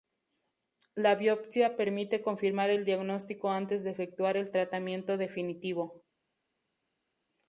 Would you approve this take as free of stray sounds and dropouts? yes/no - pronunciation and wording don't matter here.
yes